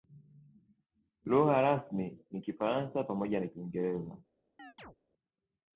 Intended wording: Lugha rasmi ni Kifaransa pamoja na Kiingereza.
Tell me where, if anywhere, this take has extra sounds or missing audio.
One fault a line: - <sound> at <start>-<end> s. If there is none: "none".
- chirp at 4.6-5.0 s